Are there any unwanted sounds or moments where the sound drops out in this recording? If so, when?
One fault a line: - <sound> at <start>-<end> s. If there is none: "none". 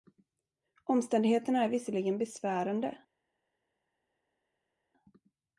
none